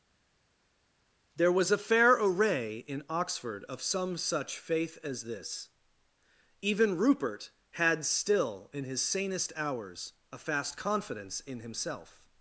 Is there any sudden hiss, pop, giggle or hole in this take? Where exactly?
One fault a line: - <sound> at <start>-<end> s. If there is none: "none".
none